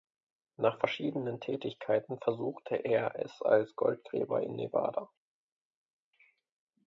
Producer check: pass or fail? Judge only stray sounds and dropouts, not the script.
pass